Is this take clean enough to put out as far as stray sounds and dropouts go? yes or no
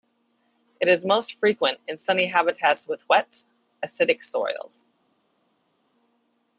yes